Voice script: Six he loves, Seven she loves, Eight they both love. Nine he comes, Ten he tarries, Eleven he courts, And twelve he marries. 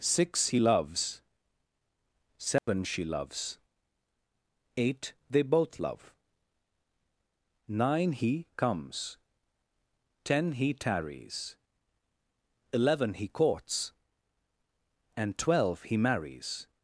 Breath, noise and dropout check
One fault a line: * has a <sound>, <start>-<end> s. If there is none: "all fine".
* has a dropout, 2.6-2.7 s